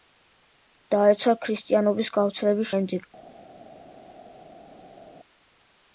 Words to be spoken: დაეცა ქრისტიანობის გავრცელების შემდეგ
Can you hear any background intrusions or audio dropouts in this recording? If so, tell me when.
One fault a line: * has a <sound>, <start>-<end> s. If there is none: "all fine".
all fine